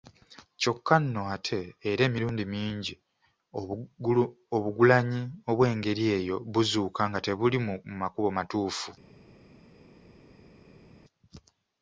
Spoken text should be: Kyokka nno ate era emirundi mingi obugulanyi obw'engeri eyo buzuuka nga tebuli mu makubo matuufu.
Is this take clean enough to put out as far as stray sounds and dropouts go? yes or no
yes